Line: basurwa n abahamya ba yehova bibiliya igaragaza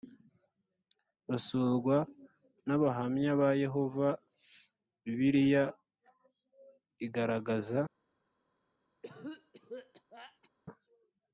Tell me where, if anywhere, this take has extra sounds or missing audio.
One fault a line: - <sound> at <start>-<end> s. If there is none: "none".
- cough at 9.0-10.5 s